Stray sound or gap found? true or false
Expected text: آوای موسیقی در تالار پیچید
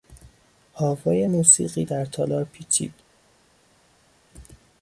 false